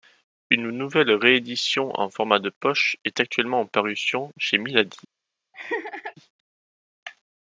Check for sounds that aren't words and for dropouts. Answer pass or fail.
fail